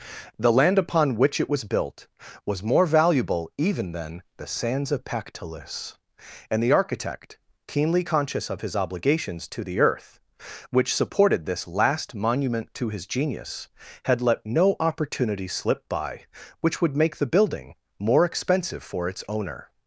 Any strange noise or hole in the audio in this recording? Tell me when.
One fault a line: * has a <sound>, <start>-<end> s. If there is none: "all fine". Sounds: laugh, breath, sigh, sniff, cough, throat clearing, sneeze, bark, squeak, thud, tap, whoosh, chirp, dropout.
all fine